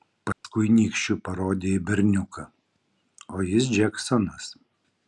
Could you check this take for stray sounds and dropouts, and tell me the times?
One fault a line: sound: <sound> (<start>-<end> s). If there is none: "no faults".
sound: dropout (0.3-0.4 s)